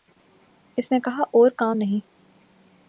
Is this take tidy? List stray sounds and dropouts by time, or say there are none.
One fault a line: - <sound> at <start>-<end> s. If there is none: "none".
none